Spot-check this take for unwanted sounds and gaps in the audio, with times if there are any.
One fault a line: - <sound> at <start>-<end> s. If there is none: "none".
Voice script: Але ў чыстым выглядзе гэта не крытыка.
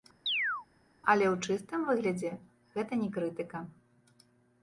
- chirp at 0.3-0.7 s